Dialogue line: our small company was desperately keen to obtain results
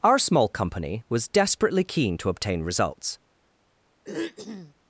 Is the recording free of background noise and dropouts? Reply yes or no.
no